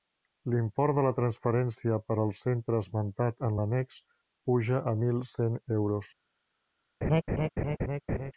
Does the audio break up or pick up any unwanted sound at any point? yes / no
yes